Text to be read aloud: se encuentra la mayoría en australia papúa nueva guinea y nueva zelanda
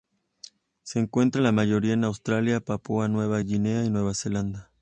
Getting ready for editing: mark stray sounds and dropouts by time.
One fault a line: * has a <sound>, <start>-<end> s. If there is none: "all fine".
all fine